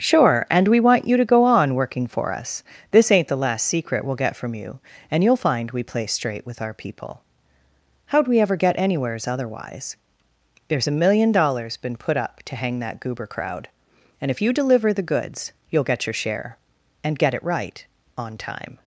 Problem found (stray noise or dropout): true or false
false